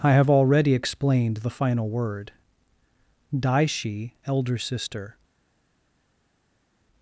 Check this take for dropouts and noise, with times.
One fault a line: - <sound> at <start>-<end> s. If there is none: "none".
none